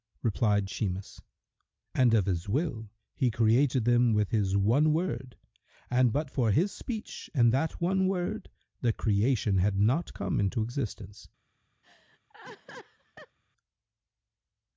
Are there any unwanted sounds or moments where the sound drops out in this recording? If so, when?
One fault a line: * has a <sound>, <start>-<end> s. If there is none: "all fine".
* has a laugh, 11.8-13.4 s